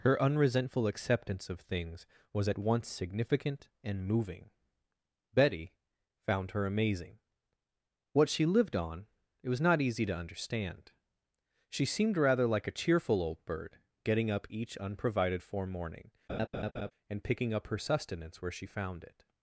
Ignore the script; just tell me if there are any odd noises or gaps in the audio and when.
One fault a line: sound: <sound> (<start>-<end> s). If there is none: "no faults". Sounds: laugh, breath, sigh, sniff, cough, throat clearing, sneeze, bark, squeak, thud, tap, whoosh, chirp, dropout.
sound: laugh (16.3-16.9 s)